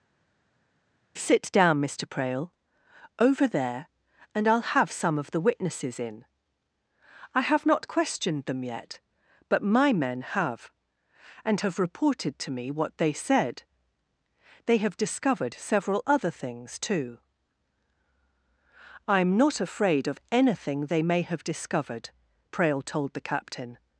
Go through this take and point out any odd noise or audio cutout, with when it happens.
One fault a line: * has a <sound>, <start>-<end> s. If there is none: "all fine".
all fine